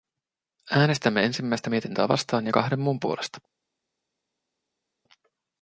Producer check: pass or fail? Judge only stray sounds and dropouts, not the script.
pass